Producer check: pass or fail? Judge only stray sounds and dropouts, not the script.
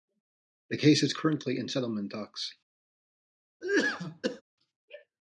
fail